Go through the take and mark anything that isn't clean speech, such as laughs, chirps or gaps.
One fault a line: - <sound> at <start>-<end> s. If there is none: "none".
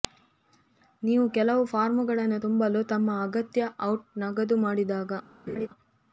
- laugh at 5.5-5.7 s